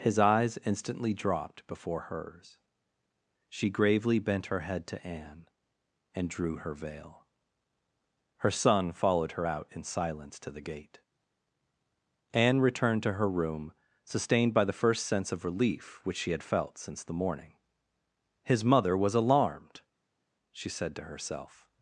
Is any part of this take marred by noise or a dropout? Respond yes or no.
no